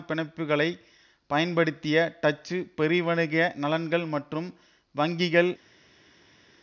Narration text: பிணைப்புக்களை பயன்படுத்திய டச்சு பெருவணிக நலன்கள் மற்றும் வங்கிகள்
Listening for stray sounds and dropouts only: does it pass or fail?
pass